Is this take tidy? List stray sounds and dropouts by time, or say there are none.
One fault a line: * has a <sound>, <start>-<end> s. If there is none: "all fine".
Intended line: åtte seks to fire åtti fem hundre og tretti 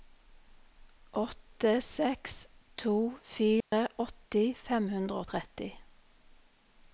* has a dropout, 3.6-3.7 s